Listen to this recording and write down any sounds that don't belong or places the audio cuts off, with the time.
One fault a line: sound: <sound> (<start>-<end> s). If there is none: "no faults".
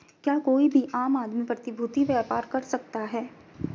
no faults